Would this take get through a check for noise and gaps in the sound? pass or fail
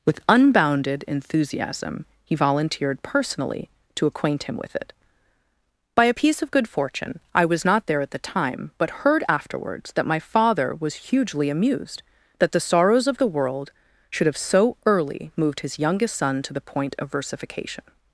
pass